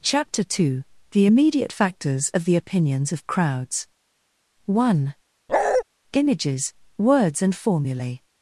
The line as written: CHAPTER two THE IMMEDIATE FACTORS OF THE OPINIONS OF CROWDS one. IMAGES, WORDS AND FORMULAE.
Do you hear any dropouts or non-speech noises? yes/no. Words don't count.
yes